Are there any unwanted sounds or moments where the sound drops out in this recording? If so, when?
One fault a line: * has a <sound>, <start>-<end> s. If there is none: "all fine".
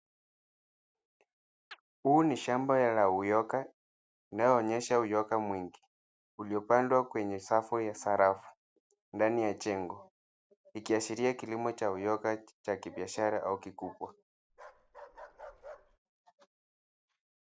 * has a chirp, 1.7-1.8 s
* has a bark, 14.5-16.0 s